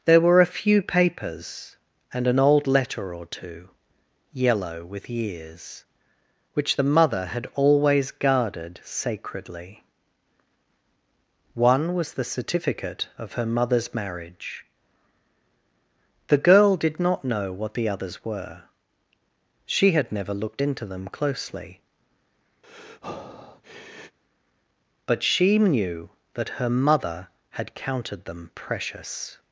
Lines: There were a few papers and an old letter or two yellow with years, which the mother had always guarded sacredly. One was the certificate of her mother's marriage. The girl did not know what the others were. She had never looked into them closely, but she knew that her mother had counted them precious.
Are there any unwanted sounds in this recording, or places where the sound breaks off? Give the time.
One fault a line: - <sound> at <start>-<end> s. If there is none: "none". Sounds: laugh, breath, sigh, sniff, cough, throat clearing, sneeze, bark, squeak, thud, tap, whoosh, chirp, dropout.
- breath at 22.6-24.2 s